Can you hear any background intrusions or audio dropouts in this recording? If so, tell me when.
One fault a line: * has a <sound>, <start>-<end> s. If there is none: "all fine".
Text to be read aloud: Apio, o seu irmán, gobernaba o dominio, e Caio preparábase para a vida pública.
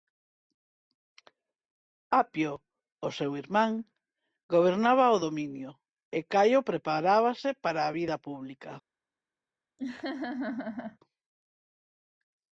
* has a laugh, 9.8-11.0 s